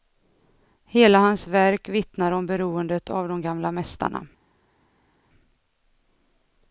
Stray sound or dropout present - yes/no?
no